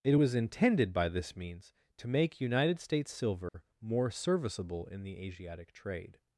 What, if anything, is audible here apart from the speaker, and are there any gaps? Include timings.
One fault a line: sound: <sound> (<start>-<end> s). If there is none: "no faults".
sound: dropout (3.5-3.5 s)